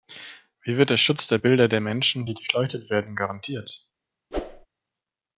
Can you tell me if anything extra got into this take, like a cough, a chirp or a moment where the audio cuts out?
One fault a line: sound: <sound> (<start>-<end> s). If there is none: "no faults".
sound: whoosh (4.3-4.7 s)